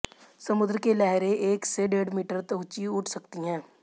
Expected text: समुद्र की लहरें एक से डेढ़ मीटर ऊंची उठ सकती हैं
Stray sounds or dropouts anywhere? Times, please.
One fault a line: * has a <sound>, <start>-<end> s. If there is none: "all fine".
all fine